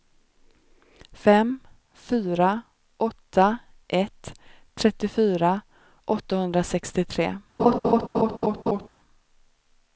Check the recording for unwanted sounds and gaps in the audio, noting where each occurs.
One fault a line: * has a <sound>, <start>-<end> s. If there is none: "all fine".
* has a laugh, 7.6-8.9 s